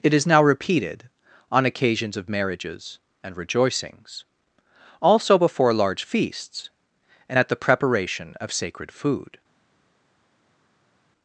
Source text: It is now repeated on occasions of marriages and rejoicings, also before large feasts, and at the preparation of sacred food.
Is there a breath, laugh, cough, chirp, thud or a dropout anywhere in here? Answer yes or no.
no